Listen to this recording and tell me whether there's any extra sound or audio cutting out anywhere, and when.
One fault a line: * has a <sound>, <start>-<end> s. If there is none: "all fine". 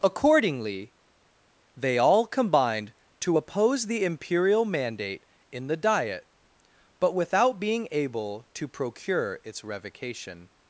all fine